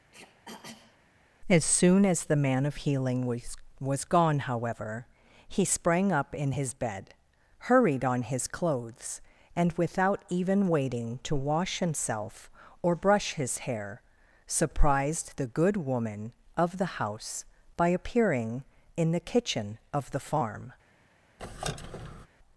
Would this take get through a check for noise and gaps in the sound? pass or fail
fail